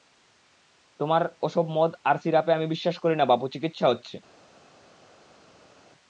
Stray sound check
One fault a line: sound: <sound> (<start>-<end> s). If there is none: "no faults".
no faults